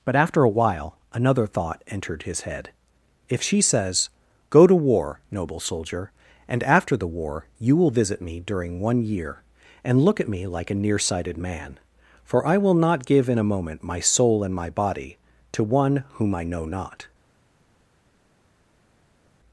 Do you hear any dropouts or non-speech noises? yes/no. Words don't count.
no